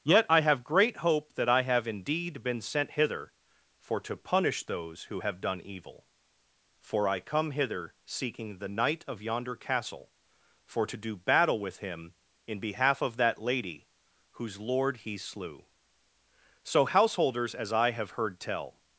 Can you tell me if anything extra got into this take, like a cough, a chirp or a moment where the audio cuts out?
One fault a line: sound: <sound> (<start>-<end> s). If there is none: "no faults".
no faults